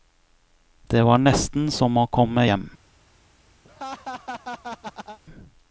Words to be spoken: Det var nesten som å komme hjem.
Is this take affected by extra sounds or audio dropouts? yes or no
yes